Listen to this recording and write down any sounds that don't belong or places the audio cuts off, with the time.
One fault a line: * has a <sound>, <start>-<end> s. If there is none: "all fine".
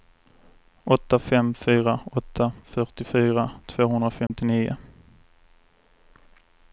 * has a dropout, 4.3-4.3 s